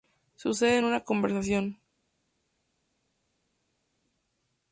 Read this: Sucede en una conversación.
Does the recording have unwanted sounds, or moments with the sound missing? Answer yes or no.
no